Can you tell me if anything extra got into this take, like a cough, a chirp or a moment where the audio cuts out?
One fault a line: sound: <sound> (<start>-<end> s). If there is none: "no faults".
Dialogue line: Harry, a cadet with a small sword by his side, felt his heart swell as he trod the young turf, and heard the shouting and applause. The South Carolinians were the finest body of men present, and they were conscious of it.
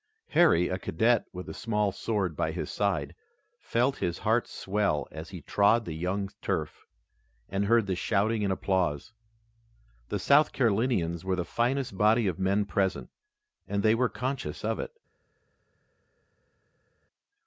no faults